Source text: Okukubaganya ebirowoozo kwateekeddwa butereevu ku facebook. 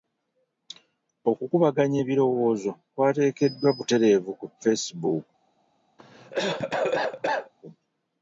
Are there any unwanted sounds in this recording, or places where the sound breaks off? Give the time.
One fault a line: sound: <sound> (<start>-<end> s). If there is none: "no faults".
sound: cough (6.0-7.5 s)